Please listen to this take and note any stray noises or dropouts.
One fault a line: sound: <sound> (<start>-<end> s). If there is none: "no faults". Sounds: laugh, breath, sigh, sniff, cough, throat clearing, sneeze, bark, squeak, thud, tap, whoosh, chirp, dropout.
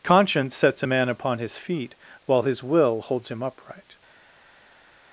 no faults